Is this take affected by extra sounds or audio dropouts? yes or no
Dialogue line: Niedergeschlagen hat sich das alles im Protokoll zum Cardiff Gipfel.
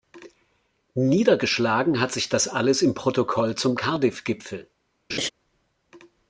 yes